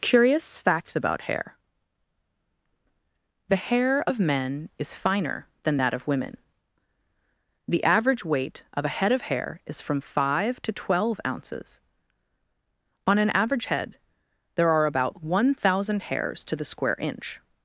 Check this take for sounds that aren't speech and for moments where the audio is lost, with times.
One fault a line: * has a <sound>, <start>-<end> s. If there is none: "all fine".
all fine